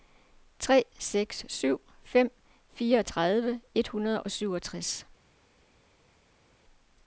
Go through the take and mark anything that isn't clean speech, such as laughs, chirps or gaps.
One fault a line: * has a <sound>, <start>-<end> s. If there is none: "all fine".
all fine